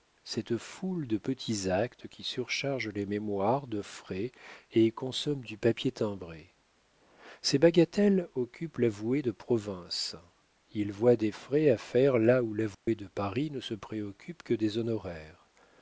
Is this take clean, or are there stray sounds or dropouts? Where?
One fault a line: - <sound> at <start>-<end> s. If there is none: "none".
- dropout at 12.7-12.9 s